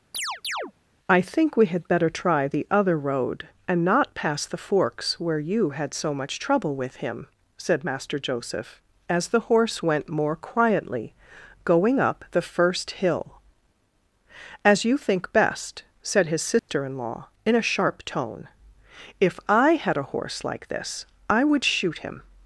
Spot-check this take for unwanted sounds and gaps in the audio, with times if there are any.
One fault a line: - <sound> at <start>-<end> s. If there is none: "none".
- chirp at 0.1-0.7 s
- dropout at 16.6-16.7 s